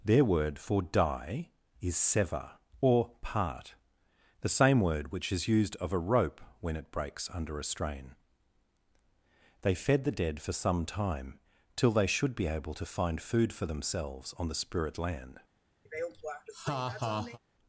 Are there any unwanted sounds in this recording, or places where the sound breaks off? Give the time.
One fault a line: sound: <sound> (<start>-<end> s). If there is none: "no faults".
sound: laugh (15.9-17.4 s)